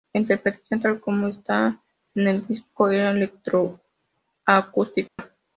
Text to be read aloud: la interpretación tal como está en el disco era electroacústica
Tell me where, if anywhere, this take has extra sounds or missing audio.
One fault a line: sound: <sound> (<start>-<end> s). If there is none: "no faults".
sound: dropout (5.1-5.2 s)